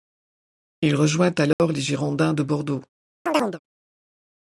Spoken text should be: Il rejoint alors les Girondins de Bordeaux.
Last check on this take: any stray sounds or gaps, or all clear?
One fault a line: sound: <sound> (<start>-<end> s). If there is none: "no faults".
sound: dropout (1.5-1.6 s)
sound: chirp (3.3-3.6 s)